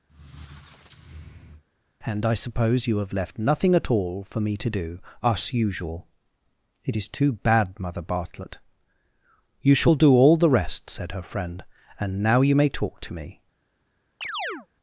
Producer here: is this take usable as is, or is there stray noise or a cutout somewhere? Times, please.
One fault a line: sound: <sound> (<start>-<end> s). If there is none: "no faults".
sound: squeak (0.1-1.6 s)
sound: chirp (14.2-14.7 s)